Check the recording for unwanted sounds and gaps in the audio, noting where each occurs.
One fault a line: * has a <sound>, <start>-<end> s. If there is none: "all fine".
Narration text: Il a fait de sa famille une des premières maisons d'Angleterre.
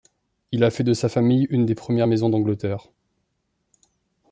all fine